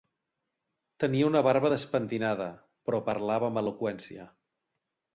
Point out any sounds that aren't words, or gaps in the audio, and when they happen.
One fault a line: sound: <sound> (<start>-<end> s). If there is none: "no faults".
no faults